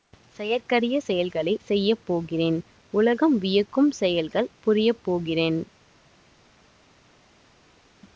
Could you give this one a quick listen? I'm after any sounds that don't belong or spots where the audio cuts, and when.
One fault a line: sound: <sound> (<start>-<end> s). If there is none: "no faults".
no faults